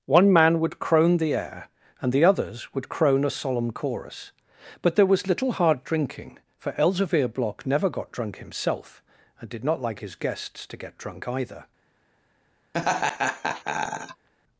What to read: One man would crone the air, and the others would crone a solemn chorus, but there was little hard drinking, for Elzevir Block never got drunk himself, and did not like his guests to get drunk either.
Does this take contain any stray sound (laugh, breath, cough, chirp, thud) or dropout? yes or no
yes